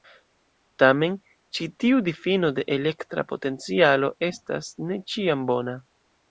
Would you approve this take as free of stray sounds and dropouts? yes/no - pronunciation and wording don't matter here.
yes